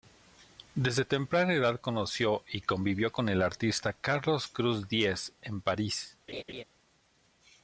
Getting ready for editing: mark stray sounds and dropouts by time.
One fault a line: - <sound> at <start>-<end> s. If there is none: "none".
- laugh at 6.3-6.6 s